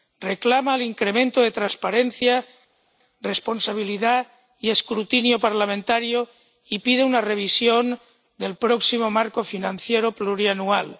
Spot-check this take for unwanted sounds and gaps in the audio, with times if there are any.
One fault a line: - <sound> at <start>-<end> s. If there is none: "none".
none